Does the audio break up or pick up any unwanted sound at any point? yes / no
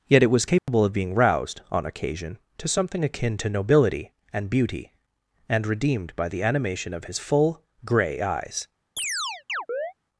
yes